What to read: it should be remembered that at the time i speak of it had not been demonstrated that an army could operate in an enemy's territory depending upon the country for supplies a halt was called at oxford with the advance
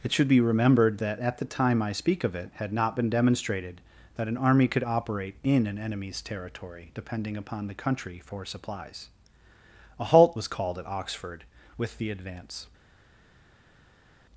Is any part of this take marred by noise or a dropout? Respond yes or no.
no